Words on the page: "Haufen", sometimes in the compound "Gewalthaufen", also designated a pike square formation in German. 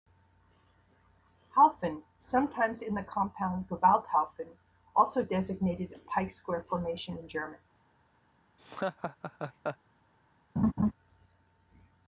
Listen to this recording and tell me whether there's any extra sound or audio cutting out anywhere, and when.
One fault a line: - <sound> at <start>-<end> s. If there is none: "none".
- laugh at 8.6-9.8 s
- laugh at 10.6-10.9 s